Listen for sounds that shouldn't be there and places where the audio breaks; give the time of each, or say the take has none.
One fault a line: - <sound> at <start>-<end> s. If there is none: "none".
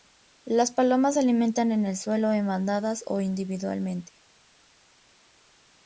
none